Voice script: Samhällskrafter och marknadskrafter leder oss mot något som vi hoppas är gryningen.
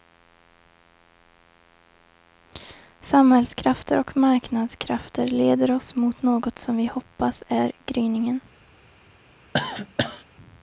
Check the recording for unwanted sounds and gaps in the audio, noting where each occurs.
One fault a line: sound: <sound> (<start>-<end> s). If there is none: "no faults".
sound: cough (9.5-10.2 s)